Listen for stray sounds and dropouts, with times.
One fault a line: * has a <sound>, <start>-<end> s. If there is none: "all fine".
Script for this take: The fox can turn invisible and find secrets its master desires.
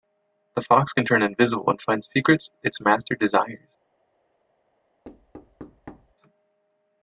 * has a thud, 5.0-6.1 s